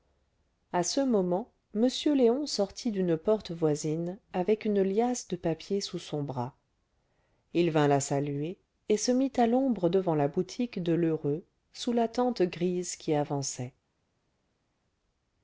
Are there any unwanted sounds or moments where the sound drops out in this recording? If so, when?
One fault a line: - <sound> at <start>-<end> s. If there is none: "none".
none